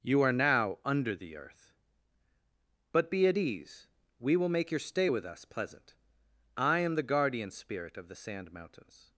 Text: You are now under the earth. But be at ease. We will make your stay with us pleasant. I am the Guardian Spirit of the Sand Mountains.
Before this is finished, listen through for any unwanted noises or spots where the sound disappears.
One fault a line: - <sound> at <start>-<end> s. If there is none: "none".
none